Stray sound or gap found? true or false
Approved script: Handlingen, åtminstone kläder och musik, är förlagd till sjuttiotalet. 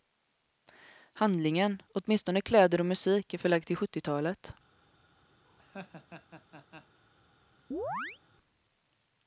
true